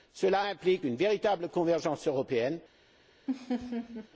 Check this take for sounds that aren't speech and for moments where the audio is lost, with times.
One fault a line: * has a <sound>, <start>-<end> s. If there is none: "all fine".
* has a laugh, 3.3-4.1 s